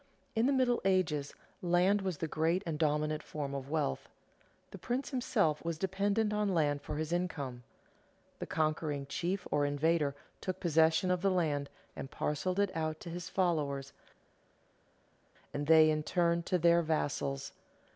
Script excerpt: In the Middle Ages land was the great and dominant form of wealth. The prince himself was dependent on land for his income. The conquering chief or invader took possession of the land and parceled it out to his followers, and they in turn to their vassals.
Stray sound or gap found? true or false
false